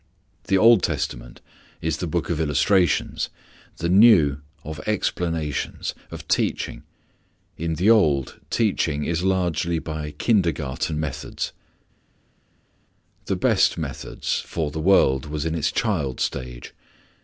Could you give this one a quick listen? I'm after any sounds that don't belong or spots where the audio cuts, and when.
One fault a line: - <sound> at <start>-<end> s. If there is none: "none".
none